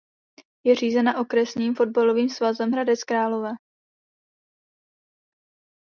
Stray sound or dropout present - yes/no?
no